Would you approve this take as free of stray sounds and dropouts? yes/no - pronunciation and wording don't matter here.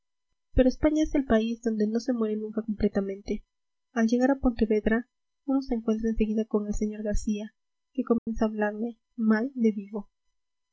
no